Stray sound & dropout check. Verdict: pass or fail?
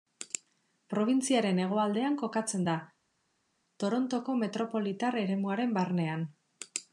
pass